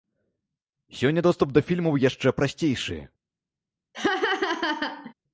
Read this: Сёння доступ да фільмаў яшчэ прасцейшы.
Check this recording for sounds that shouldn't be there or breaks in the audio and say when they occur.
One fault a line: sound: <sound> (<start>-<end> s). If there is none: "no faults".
sound: laugh (3.9-5.1 s)